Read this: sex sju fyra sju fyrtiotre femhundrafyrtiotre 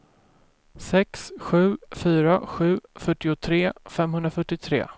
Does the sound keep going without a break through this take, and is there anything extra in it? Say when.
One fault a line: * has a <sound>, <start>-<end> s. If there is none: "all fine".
all fine